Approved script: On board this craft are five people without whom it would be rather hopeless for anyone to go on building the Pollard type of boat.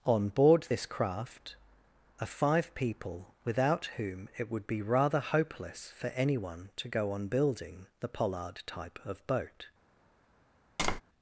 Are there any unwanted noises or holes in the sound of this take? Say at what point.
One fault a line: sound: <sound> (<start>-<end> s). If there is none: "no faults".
sound: tap (10.8-11.0 s)